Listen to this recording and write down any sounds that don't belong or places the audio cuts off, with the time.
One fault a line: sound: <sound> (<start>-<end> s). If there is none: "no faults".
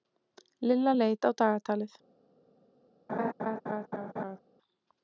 sound: laugh (3.1-4.4 s)